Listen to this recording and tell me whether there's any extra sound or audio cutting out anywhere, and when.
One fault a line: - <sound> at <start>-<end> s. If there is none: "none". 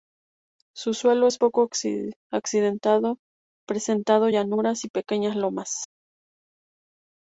none